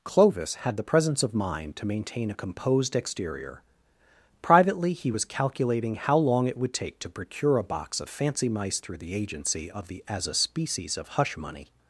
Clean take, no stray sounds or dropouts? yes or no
yes